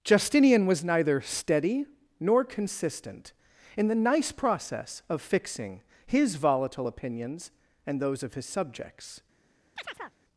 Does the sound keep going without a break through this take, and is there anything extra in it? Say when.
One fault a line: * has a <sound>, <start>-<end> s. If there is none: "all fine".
* has a chirp, 9.8-10.2 s